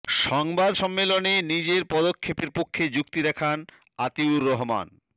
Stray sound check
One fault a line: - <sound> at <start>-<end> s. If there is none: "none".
none